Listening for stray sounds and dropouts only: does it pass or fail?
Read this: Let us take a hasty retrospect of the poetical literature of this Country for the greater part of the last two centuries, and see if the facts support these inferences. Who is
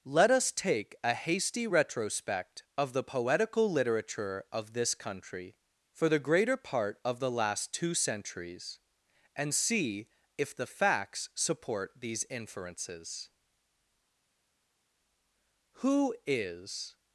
pass